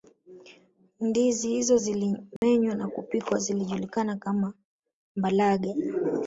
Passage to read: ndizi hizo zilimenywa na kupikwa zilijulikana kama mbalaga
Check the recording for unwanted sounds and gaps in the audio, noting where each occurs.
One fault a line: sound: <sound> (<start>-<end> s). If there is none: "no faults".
sound: dropout (2.4-2.4 s)